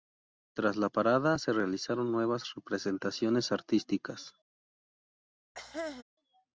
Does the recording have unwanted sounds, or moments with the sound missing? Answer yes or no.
yes